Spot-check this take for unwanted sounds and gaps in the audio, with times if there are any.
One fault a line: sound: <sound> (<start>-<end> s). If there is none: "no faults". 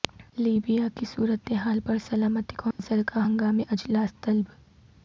sound: dropout (2.7-2.8 s)